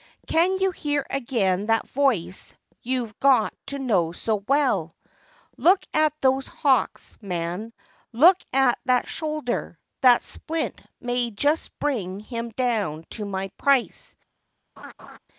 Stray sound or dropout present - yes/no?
yes